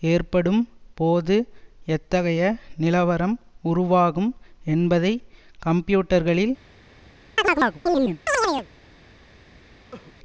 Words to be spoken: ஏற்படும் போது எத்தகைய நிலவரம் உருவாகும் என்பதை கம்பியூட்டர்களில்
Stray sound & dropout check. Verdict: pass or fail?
fail